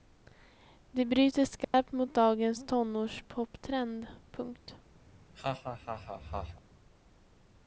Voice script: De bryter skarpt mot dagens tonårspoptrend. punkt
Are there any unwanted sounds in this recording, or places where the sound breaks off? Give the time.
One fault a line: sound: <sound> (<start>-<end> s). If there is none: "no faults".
sound: dropout (1.6-1.7 s)
sound: laugh (5.1-6.6 s)